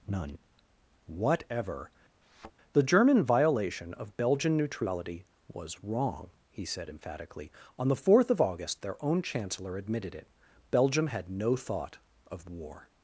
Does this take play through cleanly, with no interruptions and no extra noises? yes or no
no